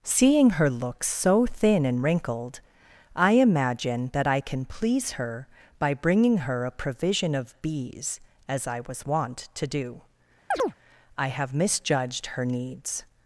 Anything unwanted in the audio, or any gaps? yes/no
yes